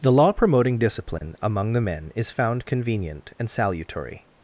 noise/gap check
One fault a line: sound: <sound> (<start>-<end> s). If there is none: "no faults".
sound: dropout (1.2-1.2 s)